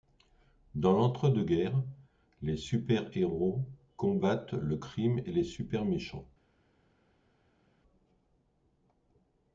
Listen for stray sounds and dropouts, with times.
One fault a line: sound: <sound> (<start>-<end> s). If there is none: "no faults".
no faults